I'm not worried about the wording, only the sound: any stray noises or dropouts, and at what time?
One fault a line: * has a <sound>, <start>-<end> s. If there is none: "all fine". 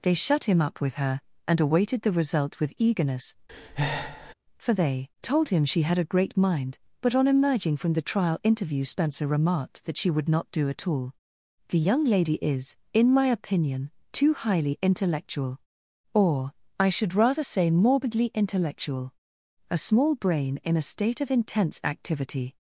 * has a breath, 3.5-4.3 s